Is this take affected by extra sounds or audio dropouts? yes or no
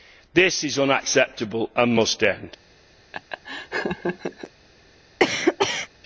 yes